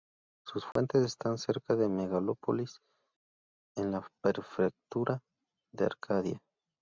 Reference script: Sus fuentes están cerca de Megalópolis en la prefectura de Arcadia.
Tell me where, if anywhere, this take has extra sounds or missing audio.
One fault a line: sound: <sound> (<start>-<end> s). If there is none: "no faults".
sound: dropout (0.7-0.8 s)